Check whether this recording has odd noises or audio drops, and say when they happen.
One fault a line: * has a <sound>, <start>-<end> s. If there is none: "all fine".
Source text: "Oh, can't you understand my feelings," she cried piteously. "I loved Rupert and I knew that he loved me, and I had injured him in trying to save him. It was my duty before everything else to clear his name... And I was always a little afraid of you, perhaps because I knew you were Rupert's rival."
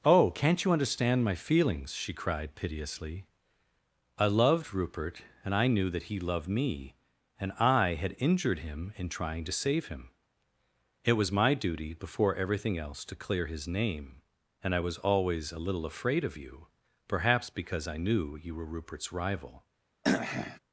* has a throat clearing, 20.0-20.6 s